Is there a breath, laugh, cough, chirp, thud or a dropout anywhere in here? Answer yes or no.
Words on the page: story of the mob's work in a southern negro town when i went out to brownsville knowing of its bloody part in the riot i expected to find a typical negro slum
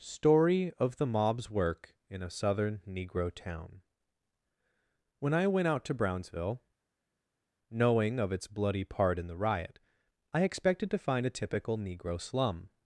no